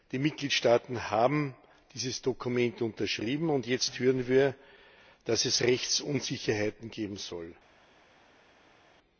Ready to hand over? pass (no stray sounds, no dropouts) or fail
pass